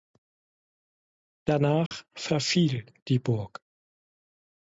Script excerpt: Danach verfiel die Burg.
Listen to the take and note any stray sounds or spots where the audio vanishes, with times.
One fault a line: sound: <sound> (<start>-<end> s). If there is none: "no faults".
sound: dropout (1.9-1.9 s)